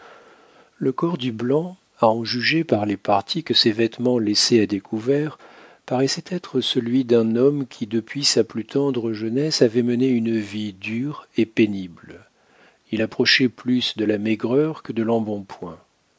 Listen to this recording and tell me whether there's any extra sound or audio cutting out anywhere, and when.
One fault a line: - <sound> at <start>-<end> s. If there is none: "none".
none